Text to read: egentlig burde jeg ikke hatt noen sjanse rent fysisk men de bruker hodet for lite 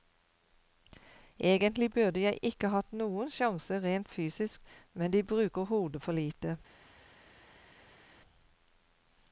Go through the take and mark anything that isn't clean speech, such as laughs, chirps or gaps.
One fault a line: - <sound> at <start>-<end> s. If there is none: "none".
none